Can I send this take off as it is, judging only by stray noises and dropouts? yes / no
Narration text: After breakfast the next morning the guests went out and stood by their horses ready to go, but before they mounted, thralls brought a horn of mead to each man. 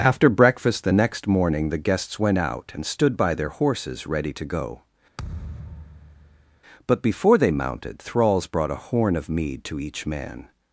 no